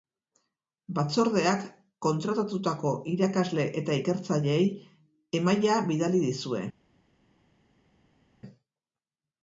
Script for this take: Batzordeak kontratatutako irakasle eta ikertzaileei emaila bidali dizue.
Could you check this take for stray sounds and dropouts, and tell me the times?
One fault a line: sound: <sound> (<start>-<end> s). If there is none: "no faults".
no faults